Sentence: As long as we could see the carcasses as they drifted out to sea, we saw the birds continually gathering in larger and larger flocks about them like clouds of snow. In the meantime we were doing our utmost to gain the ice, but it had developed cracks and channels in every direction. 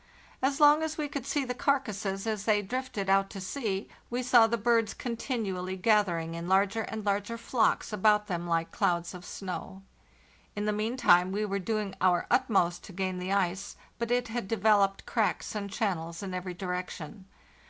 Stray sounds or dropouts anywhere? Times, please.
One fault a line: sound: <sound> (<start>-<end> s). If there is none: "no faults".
no faults